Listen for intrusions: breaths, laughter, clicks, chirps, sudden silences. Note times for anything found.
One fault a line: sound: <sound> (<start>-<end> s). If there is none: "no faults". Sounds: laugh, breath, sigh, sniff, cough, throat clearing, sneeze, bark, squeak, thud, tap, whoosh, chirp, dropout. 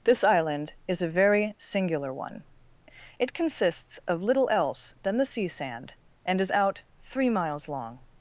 no faults